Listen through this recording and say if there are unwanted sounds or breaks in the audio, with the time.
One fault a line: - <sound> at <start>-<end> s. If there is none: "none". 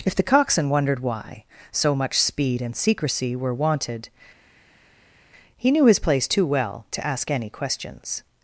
none